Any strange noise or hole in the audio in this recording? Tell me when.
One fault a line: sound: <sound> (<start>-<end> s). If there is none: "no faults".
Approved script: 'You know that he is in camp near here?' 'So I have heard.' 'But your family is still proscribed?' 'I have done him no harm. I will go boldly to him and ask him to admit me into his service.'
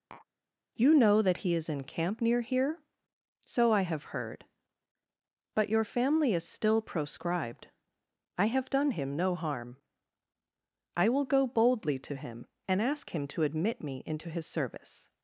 sound: tap (0.1-0.3 s)